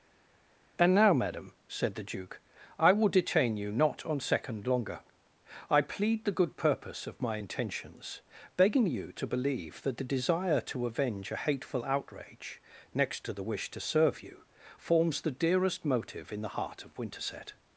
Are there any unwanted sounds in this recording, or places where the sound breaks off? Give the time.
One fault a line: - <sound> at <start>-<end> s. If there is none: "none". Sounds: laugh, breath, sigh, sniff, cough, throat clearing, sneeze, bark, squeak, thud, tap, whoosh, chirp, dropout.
none